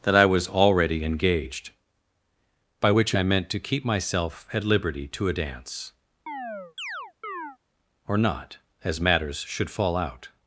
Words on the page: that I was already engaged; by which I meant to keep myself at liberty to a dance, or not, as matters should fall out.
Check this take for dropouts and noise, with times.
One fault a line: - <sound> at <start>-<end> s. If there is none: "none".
- chirp at 6.3-7.6 s